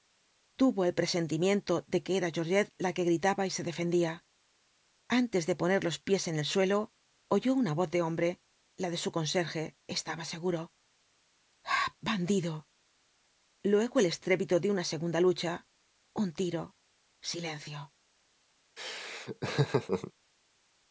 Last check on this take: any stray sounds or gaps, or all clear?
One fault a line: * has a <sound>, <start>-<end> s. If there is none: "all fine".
* has a laugh, 18.8-20.1 s